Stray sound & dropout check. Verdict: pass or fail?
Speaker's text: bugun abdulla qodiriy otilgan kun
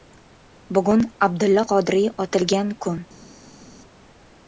pass